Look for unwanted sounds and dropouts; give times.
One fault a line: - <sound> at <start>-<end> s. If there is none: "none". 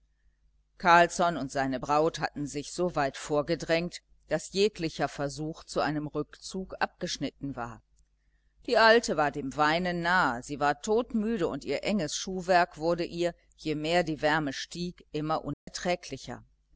- dropout at 15.5-15.7 s